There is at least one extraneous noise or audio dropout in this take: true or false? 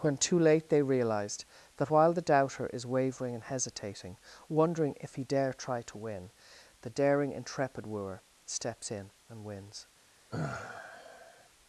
true